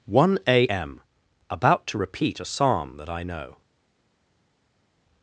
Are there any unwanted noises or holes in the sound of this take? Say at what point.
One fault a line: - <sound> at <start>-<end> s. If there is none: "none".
none